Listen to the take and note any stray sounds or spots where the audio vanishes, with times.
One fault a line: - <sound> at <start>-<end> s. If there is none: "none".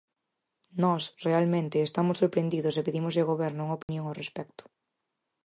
- dropout at 3.8-3.9 s